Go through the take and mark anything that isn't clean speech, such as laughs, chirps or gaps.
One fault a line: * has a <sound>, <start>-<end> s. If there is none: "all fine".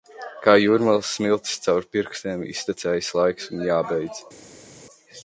all fine